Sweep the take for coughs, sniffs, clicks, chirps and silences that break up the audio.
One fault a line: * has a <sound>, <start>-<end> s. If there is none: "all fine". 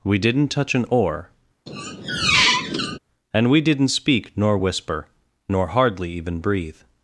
* has a squeak, 1.7-3.0 s